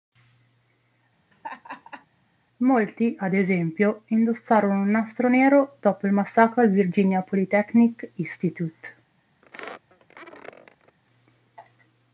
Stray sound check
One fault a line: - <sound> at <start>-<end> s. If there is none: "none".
- laugh at 1.3-2.1 s
- squeak at 9.4-11.0 s